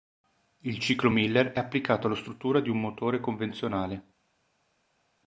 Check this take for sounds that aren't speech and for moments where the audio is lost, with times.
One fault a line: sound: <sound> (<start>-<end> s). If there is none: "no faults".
no faults